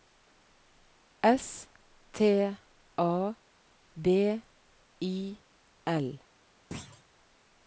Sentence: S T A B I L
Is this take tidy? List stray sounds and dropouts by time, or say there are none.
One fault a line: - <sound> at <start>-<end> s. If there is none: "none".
- thud at 6.7-7.0 s